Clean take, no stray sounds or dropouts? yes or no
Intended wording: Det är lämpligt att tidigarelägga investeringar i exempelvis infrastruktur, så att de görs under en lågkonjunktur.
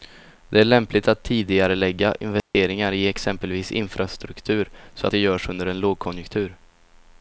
no